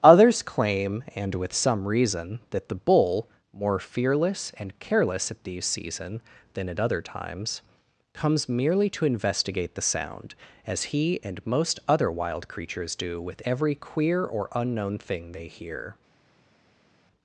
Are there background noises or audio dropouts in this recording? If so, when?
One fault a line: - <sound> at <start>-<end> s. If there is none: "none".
none